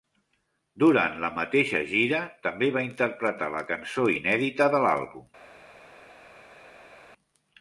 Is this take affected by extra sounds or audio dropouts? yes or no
no